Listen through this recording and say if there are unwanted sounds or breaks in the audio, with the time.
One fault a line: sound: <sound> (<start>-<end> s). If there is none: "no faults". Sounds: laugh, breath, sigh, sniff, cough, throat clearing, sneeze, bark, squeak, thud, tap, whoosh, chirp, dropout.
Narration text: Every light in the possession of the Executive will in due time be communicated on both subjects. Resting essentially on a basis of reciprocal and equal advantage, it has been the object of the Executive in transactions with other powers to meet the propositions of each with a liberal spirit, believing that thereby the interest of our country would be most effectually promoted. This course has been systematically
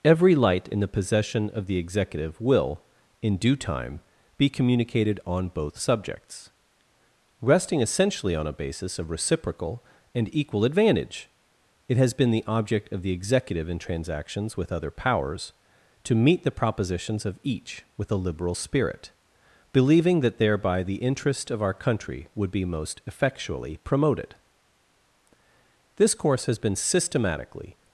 no faults